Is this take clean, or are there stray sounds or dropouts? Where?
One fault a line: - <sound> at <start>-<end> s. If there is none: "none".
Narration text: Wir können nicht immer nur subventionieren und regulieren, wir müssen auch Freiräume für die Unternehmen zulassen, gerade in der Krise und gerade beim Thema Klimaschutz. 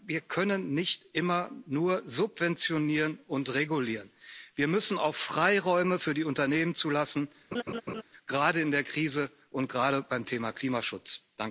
- laugh at 7.5-8.0 s